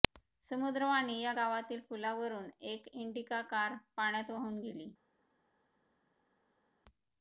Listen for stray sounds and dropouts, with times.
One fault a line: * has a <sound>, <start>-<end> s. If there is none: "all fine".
all fine